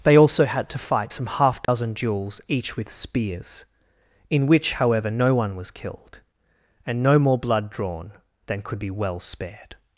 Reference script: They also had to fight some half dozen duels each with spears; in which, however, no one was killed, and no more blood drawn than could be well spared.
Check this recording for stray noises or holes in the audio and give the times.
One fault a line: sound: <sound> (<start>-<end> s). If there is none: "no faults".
sound: dropout (1.6-1.7 s)